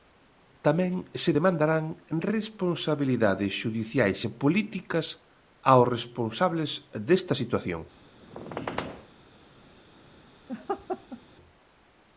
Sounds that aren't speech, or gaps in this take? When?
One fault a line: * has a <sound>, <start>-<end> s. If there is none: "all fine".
* has a squeak, 8.2-9.1 s
* has a laugh, 10.5-11.2 s